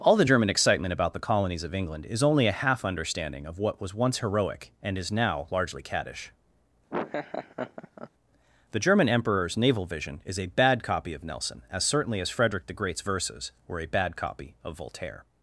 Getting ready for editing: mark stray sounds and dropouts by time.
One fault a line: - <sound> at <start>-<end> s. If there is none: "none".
- laugh at 6.9-8.1 s